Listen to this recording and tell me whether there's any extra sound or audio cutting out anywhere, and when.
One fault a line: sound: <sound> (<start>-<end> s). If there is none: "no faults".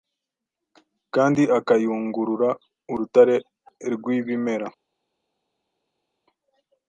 no faults